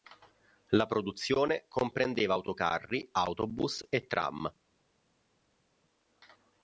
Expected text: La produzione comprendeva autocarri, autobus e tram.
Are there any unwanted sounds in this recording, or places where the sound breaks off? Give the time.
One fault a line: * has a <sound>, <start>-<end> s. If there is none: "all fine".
all fine